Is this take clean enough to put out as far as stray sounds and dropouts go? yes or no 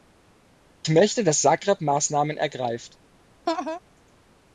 no